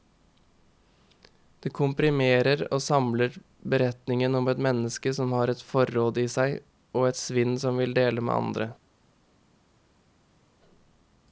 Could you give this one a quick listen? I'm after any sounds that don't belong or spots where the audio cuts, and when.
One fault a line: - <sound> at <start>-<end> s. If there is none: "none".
none